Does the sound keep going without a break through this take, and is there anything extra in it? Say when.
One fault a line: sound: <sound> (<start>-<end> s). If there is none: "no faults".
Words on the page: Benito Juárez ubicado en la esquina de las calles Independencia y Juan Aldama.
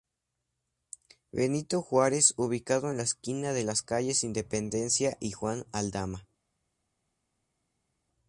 no faults